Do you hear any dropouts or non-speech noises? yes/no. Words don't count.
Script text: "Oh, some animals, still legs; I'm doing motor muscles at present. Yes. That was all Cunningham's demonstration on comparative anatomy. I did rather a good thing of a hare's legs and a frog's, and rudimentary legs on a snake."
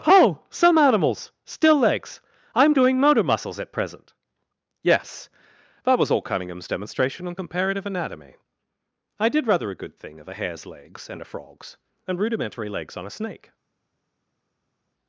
no